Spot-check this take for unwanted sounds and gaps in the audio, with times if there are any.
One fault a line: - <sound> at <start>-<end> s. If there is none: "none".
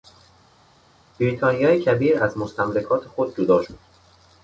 none